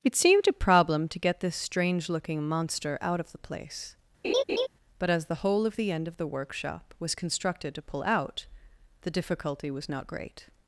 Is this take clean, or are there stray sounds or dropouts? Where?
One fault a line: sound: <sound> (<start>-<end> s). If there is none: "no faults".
sound: laugh (4.2-4.7 s)